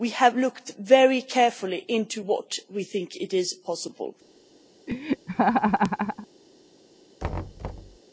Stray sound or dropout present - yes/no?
yes